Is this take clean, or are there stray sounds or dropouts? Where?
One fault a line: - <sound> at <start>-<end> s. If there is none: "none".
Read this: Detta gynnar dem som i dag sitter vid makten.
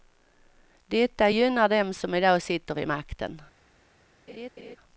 - laugh at 4.3-4.8 s